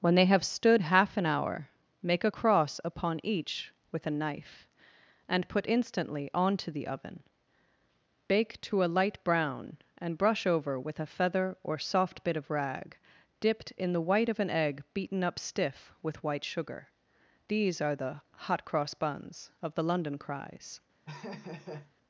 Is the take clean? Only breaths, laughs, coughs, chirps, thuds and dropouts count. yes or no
no